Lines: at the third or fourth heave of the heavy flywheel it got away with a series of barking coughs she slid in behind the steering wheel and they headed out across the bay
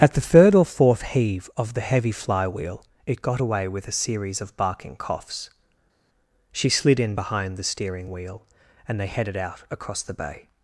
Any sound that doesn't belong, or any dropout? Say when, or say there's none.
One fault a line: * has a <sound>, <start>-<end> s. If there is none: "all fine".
all fine